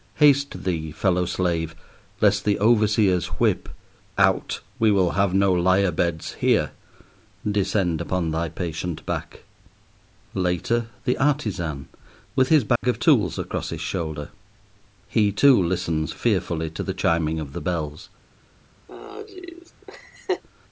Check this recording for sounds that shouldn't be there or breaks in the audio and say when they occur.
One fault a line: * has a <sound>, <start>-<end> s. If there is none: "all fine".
* has a dropout, 12.8-12.8 s
* has a laugh, 18.9-20.4 s